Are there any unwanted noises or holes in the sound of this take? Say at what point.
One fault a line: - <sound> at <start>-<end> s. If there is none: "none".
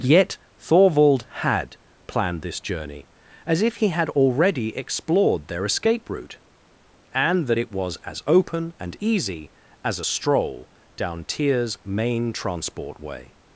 none